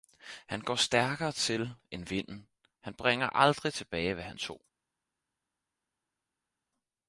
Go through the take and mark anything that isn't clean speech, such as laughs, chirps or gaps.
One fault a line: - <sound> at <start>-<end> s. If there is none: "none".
none